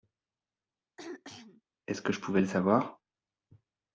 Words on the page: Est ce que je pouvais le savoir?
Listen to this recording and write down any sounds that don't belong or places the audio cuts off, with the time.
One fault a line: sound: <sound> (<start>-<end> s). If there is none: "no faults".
sound: throat clearing (1.0-1.6 s)